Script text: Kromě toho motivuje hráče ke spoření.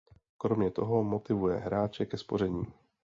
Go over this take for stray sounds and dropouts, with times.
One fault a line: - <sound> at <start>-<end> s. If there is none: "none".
none